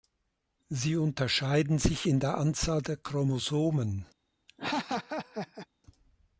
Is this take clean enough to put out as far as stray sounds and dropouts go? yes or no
no